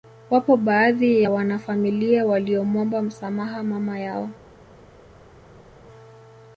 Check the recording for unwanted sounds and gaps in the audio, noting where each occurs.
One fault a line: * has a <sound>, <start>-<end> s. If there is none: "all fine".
all fine